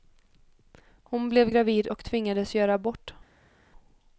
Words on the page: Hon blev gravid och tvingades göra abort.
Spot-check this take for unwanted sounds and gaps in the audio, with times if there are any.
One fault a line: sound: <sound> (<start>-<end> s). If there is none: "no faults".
no faults